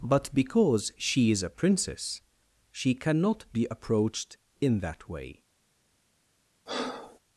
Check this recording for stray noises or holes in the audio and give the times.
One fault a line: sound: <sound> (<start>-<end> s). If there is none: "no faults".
sound: breath (6.7-7.2 s)